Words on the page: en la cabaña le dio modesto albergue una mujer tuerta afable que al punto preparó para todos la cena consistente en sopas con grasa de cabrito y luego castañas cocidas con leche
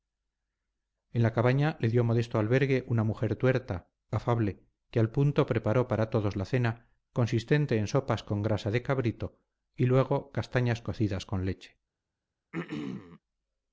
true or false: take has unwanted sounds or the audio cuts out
true